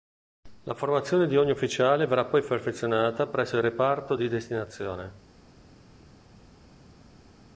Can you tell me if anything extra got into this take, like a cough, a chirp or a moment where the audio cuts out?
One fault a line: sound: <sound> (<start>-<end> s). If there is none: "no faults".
no faults